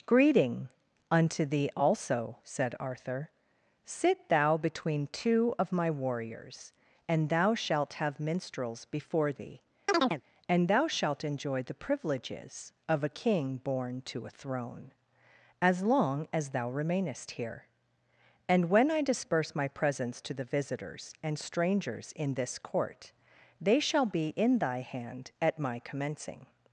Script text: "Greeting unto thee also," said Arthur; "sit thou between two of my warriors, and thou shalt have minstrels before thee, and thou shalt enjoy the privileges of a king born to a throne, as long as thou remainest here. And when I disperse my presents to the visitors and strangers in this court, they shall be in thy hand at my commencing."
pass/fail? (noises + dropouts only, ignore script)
fail